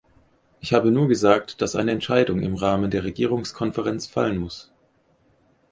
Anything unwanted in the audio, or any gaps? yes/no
no